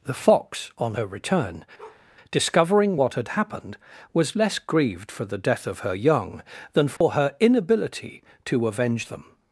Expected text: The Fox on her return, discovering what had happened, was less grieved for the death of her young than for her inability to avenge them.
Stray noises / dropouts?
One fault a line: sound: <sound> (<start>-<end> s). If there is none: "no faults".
sound: bark (1.8-2.0 s)
sound: dropout (7.0-7.0 s)